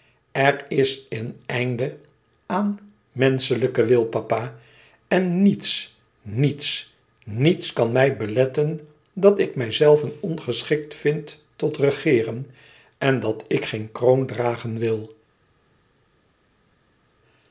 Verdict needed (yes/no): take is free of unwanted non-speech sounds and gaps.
yes